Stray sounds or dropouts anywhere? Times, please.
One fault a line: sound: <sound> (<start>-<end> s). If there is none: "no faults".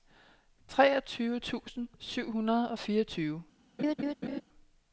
sound: laugh (3.8-4.4 s)